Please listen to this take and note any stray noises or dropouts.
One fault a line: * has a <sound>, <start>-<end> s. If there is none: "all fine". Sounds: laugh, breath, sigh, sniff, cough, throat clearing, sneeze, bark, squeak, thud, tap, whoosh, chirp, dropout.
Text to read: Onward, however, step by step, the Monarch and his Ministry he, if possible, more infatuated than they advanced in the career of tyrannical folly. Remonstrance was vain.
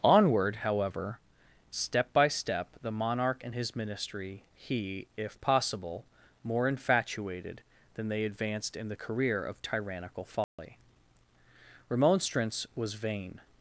* has a dropout, 10.4-10.6 s